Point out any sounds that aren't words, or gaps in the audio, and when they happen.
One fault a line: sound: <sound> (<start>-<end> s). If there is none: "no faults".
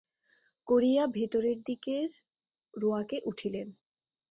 no faults